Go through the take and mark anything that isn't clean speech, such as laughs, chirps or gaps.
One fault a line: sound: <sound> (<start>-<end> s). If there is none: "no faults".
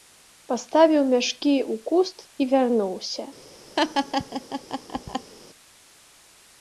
sound: laugh (3.8-5.3 s)